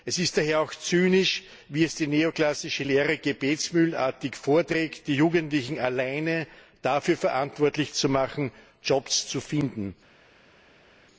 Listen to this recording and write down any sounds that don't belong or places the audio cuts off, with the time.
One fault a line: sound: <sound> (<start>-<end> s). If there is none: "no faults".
no faults